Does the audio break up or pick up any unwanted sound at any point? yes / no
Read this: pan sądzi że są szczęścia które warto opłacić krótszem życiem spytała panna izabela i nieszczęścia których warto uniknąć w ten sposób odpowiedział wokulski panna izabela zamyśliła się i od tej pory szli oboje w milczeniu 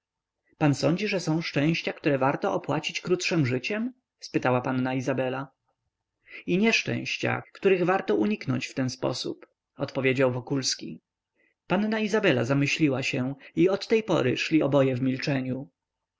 no